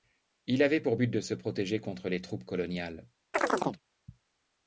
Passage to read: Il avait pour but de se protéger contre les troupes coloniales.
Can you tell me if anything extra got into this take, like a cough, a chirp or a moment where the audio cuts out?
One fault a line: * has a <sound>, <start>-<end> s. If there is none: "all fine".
* has a chirp, 3.3-3.8 s